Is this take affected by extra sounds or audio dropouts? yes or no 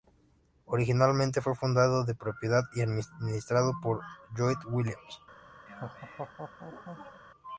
yes